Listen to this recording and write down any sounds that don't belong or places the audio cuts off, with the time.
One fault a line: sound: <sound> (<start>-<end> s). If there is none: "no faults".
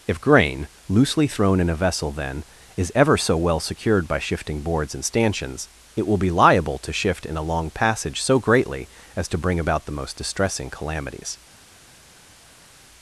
no faults